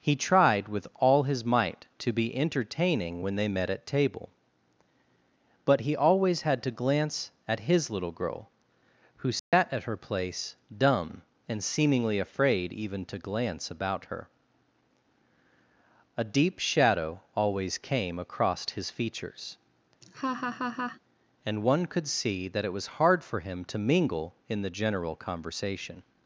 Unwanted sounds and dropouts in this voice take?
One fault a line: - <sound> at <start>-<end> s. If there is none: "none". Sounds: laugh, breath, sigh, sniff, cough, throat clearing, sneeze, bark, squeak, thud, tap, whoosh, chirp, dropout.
- dropout at 9.4-9.5 s
- laugh at 20.0-21.0 s